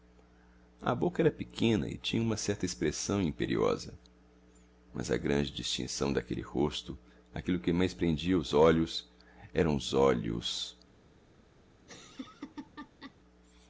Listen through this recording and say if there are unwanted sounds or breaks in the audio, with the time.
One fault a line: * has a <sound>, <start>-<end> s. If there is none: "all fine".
* has a laugh, 11.8-13.2 s